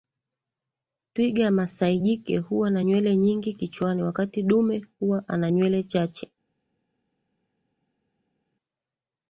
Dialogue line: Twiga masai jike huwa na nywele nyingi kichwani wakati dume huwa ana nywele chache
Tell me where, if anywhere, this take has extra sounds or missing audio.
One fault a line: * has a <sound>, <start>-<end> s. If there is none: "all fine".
all fine